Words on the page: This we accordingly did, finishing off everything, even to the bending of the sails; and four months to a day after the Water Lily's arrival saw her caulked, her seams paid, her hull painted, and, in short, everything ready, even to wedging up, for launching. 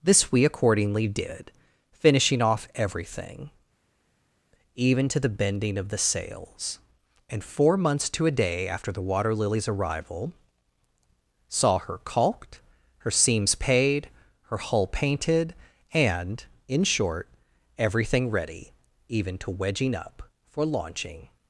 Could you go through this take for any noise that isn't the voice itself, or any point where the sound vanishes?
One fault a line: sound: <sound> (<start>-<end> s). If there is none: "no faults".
no faults